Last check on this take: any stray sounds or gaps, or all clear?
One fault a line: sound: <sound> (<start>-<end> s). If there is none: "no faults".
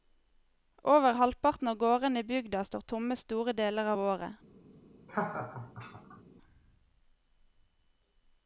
sound: laugh (5.1-6.2 s)